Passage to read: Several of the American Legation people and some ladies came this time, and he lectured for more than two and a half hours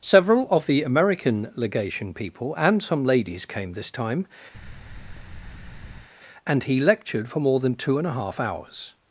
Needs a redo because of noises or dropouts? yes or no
yes